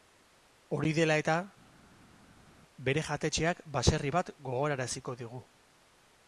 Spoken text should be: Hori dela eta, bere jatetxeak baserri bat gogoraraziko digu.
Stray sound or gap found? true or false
false